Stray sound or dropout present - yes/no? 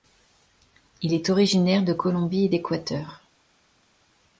no